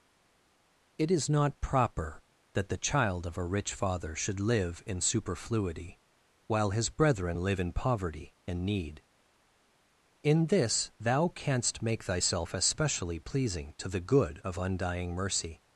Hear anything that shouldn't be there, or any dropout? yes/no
no